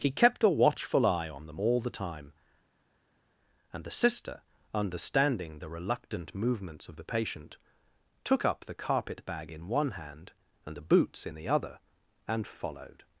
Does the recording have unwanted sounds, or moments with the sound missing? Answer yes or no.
no